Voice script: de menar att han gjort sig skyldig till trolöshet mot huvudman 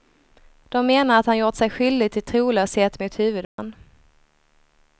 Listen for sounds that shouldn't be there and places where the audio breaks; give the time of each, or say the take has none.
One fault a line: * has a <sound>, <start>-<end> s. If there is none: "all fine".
* has a dropout, 3.4-3.6 s